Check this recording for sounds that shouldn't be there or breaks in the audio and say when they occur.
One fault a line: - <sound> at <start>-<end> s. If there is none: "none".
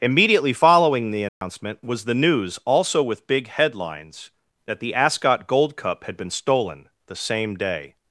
- dropout at 1.3-1.4 s